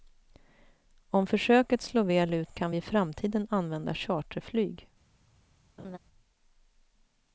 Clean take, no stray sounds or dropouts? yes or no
no